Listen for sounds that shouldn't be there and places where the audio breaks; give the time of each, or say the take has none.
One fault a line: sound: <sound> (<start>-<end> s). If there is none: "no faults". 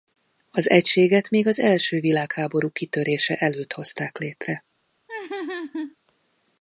sound: laugh (5.1-6.0 s)